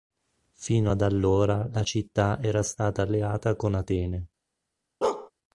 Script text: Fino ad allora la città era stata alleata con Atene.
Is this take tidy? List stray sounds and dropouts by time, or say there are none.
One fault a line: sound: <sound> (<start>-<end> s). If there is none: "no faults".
sound: bark (5.0-5.3 s)